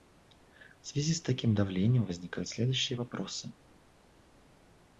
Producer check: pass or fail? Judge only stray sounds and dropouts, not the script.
pass